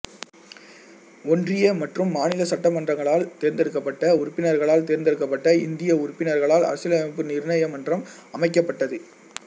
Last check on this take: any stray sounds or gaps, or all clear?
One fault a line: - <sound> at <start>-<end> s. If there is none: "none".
none